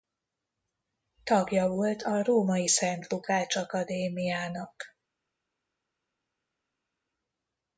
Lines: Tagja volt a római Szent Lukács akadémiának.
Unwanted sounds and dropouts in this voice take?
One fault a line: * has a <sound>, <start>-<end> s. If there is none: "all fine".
all fine